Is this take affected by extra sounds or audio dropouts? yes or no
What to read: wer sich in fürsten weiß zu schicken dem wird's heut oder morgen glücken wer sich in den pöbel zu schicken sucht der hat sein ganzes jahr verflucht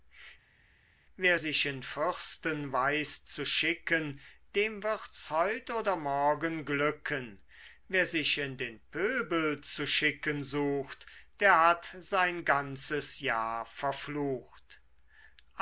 no